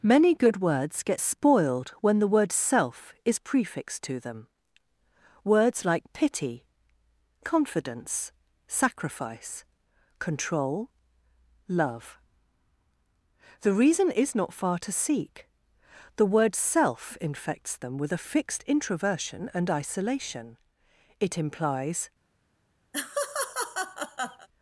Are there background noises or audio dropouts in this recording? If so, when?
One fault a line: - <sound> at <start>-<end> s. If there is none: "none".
- laugh at 22.9-24.5 s